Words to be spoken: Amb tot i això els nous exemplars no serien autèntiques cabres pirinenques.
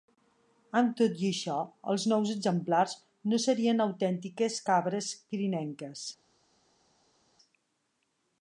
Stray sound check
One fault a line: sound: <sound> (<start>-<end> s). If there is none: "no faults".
no faults